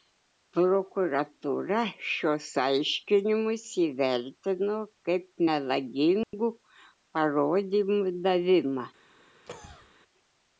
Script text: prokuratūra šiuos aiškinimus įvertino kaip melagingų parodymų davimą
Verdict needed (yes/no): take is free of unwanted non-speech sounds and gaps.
no